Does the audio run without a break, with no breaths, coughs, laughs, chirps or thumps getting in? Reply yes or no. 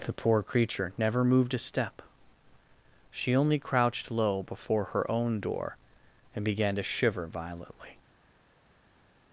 yes